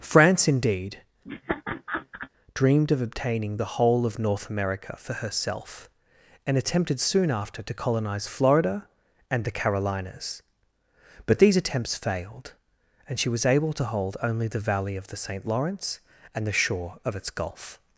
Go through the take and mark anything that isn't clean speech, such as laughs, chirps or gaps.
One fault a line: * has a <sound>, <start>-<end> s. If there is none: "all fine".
* has a laugh, 1.2-2.3 s